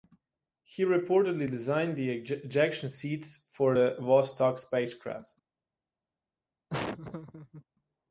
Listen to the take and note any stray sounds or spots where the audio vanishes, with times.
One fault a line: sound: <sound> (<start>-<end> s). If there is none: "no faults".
sound: laugh (6.7-7.6 s)